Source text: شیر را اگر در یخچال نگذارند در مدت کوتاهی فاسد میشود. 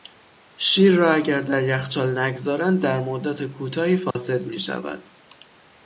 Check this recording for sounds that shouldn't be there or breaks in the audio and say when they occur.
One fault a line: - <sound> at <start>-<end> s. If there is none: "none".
- dropout at 4.1-4.2 s